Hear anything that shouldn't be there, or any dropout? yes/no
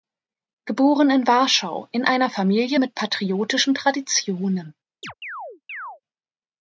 yes